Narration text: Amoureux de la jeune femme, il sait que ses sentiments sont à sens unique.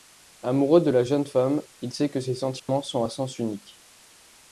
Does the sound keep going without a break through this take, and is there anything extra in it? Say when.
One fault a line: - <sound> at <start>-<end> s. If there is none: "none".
- dropout at 2.6-2.7 s